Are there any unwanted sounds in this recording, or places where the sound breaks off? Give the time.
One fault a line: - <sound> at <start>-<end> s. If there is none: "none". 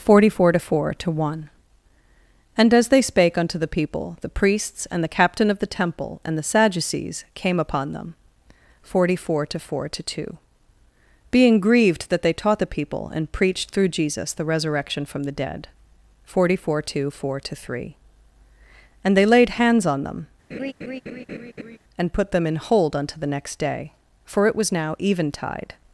- laugh at 20.5-21.8 s